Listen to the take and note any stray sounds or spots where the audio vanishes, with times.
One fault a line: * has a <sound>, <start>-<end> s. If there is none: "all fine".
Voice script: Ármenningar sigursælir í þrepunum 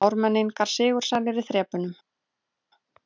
all fine